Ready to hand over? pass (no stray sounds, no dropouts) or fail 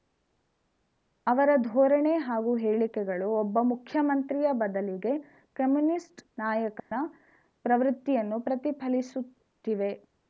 fail